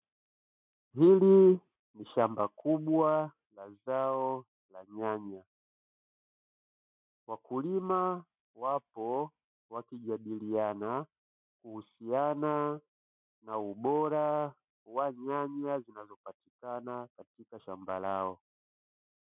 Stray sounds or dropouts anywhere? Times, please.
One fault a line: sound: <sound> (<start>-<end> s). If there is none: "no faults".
no faults